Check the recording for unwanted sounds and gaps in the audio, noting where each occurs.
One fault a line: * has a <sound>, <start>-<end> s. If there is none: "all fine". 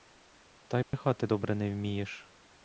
* has a dropout, 0.8-0.9 s